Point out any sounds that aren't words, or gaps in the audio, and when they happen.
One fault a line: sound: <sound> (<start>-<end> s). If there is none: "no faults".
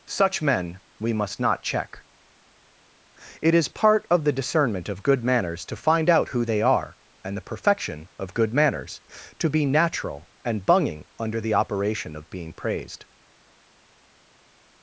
no faults